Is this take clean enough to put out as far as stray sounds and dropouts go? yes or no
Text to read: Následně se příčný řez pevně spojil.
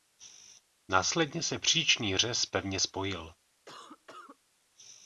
no